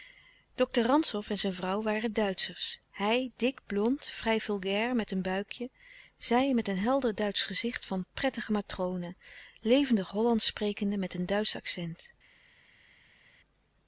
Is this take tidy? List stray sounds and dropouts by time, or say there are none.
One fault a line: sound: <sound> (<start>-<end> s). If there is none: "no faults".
no faults